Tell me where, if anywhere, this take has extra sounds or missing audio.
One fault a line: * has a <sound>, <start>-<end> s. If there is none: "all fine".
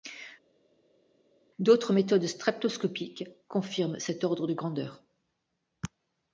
all fine